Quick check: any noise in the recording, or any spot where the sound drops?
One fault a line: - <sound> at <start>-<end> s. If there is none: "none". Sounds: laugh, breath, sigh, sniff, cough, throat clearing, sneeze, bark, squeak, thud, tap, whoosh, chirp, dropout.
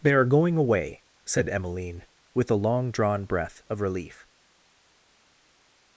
none